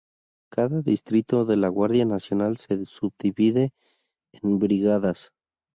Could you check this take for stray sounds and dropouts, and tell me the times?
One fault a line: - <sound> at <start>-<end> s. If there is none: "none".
none